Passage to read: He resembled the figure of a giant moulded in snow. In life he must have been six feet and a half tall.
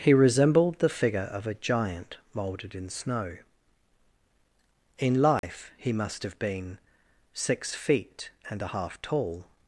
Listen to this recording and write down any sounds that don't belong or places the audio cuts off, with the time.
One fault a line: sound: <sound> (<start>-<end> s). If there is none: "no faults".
sound: dropout (5.4-5.4 s)